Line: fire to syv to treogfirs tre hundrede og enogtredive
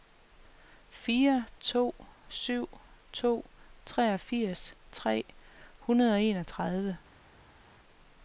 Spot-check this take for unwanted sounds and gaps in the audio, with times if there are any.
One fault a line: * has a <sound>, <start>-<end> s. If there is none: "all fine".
all fine